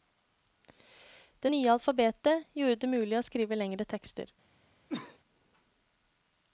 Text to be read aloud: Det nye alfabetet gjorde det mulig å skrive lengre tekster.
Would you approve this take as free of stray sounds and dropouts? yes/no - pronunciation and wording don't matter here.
no